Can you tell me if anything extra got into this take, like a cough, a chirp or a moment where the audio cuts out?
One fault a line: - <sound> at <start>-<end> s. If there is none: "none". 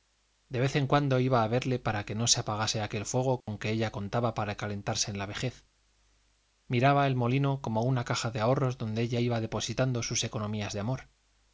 - dropout at 3.4-3.5 s